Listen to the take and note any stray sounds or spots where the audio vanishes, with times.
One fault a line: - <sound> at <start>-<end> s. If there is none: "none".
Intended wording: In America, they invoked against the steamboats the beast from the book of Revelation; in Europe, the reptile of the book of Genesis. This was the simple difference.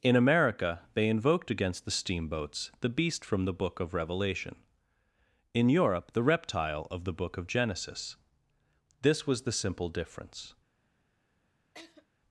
- laugh at 11.7-12.1 s